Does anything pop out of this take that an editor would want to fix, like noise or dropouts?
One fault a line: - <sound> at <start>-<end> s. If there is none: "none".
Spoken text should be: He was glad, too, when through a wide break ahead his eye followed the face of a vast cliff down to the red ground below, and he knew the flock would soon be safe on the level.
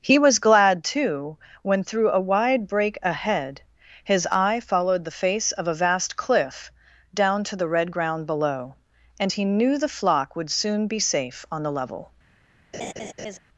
- laugh at 12.7-13.4 s